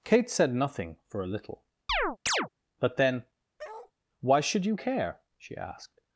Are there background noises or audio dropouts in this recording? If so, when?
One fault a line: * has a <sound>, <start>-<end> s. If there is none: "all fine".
* has a chirp, 1.9-2.5 s
* has a bark, 3.6-3.9 s